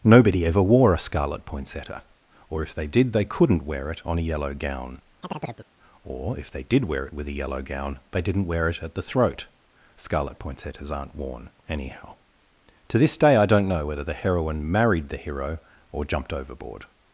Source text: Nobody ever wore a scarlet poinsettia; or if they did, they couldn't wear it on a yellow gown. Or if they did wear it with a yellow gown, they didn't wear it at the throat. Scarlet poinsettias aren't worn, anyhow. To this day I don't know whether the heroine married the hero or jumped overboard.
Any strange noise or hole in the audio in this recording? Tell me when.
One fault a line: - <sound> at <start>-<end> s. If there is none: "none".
- chirp at 5.2-5.7 s